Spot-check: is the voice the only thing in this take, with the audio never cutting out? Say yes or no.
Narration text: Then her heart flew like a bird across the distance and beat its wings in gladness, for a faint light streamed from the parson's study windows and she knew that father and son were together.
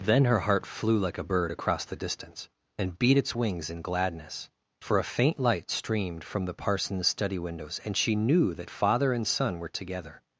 yes